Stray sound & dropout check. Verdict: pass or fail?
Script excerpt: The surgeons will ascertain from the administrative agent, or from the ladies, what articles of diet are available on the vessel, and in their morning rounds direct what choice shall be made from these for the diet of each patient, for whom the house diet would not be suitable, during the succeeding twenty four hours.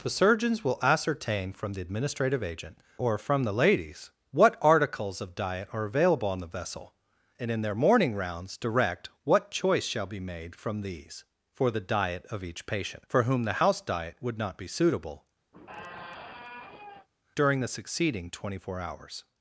fail